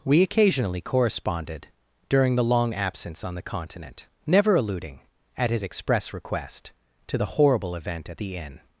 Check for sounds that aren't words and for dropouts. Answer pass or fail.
pass